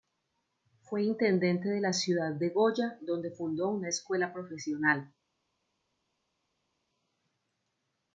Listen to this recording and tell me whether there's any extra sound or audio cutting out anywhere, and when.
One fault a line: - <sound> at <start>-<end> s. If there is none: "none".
none